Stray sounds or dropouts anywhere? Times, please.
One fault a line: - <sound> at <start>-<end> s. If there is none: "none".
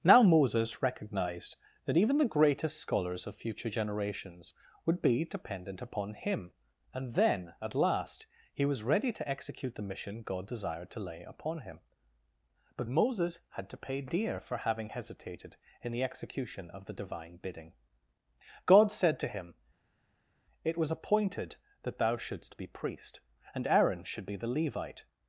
none